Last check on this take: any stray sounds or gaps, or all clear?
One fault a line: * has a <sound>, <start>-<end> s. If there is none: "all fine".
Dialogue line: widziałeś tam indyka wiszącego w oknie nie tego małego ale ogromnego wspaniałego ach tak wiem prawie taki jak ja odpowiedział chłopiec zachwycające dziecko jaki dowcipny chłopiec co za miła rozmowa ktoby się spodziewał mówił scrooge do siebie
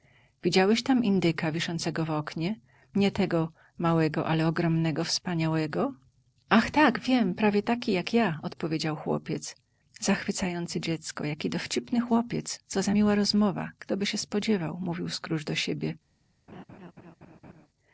* has a laugh, 16.5-17.7 s